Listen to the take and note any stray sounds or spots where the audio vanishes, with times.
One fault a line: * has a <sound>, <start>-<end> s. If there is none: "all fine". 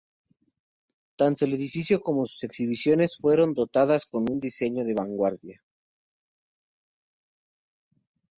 all fine